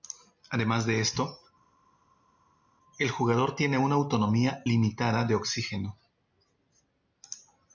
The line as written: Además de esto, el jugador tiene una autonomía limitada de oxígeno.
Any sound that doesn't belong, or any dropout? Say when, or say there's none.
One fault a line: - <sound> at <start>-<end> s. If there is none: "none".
none